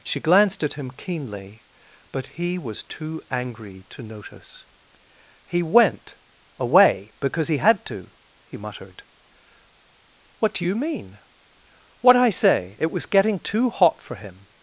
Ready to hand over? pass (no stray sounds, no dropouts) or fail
pass